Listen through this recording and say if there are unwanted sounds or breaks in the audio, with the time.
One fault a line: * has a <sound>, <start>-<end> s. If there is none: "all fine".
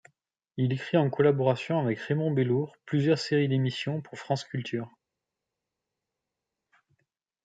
all fine